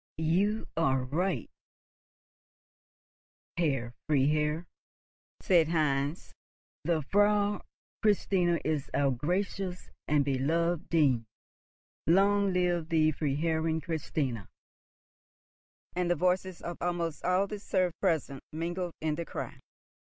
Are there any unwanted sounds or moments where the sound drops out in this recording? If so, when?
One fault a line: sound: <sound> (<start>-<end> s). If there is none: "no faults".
no faults